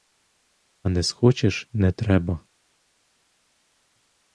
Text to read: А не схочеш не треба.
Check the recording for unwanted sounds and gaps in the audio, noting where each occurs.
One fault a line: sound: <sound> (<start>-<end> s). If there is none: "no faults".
no faults